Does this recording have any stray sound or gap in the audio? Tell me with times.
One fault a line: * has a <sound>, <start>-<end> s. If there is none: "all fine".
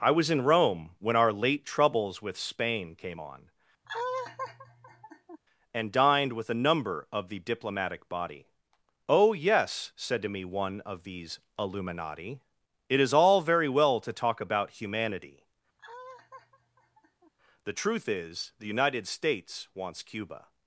* has a laugh, 3.8-5.4 s
* has a laugh, 15.8-17.3 s